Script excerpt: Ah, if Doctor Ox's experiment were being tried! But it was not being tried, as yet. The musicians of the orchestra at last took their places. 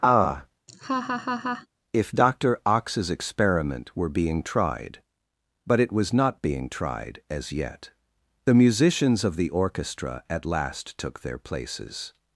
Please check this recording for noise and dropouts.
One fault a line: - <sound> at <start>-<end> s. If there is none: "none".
- laugh at 0.7-1.7 s